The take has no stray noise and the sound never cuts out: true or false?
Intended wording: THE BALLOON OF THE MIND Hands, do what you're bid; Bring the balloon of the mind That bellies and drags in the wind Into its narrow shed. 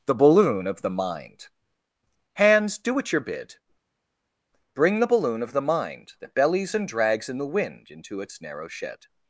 true